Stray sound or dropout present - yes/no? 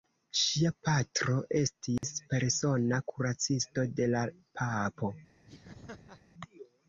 yes